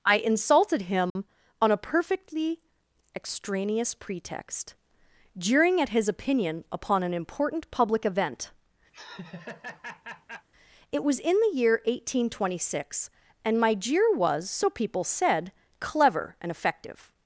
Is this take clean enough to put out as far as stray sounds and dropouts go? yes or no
no